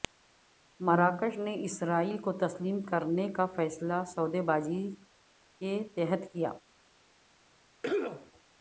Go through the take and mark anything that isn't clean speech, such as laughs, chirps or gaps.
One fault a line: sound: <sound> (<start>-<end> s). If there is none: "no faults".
sound: cough (7.8-8.3 s)